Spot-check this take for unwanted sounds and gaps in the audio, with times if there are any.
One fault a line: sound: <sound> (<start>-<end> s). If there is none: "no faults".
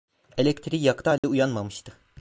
sound: dropout (1.2-1.2 s)